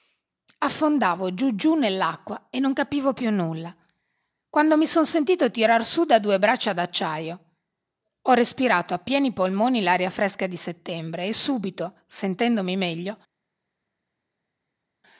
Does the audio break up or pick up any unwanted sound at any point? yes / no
no